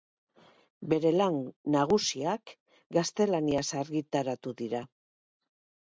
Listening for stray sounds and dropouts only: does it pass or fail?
pass